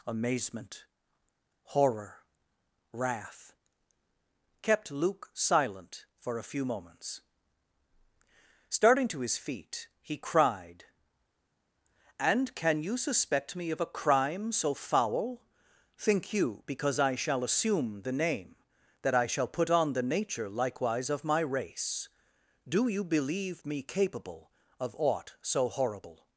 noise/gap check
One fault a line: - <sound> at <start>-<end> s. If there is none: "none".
none